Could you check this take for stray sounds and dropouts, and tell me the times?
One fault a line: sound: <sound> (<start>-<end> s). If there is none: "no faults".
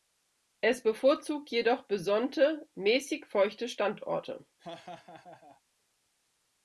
sound: laugh (4.6-5.6 s)